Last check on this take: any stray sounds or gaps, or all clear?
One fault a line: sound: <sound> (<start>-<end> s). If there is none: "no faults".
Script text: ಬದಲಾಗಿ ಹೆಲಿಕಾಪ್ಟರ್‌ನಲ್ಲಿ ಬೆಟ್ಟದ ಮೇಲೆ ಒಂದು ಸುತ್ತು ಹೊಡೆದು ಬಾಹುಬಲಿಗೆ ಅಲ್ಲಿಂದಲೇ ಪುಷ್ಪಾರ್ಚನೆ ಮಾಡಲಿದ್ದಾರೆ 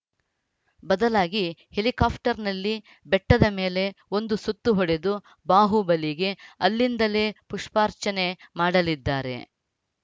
no faults